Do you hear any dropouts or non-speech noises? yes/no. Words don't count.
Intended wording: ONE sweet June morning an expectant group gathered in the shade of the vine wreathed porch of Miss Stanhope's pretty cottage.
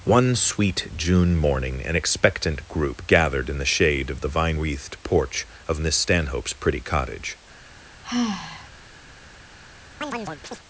yes